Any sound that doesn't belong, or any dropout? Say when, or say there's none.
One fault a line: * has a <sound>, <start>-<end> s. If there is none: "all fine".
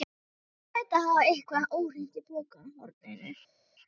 all fine